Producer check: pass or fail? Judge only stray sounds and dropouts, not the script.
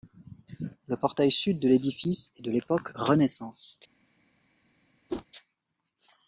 fail